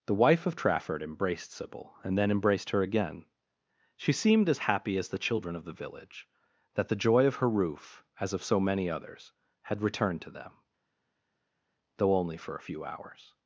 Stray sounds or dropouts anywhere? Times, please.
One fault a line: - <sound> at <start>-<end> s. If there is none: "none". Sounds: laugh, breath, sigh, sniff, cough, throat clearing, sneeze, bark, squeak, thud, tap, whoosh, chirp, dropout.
none